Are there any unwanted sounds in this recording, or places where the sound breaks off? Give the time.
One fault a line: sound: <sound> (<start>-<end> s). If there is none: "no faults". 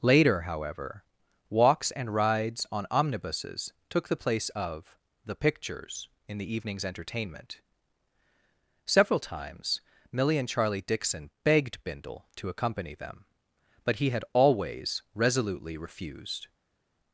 no faults